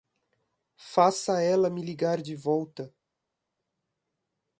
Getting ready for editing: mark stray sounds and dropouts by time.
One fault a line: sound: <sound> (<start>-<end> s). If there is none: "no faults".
no faults